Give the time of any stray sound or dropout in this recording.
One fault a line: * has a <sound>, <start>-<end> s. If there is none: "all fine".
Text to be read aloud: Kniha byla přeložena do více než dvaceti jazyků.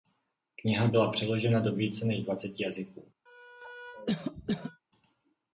* has a cough, 3.3-4.8 s